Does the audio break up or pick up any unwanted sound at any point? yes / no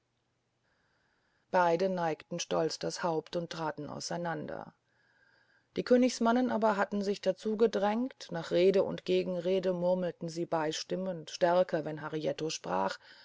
no